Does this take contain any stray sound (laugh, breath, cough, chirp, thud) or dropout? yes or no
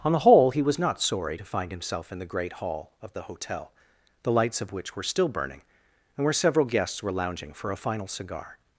no